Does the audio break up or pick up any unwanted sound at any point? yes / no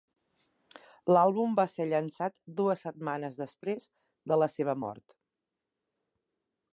no